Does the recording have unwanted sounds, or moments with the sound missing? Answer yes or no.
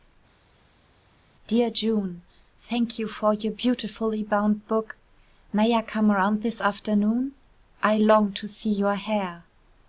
no